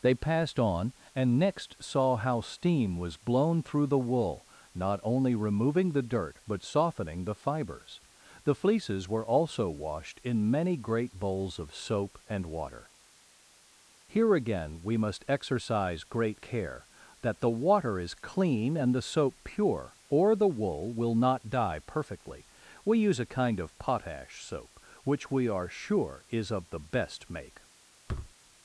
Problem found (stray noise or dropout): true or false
true